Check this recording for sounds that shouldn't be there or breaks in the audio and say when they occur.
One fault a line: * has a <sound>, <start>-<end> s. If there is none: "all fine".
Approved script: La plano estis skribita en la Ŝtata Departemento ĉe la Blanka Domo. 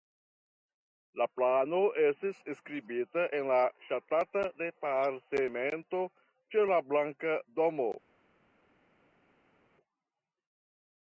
all fine